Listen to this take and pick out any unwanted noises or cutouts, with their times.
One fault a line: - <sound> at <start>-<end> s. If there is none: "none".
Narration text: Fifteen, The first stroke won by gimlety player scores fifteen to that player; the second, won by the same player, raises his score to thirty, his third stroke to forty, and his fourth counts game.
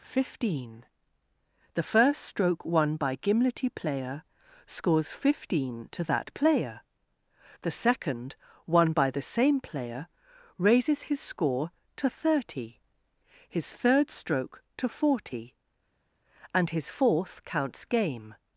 none